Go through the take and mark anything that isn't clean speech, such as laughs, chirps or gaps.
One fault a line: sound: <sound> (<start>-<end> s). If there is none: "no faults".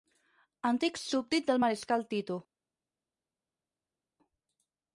no faults